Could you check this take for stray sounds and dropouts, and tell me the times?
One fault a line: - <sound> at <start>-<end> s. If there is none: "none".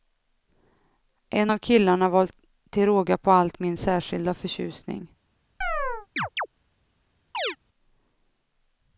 - chirp at 5.6-6.5 s
- chirp at 7.3-7.6 s